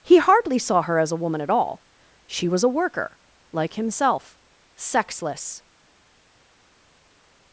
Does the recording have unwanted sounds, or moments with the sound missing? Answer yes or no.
no